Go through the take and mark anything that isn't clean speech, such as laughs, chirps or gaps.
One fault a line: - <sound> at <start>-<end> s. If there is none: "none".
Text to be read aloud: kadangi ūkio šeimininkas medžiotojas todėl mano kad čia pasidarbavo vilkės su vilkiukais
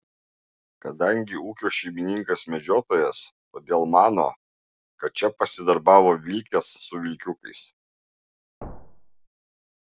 - thud at 8.6-9.3 s